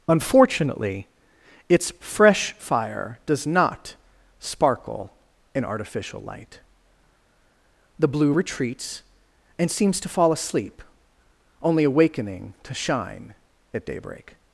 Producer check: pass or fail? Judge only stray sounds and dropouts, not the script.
pass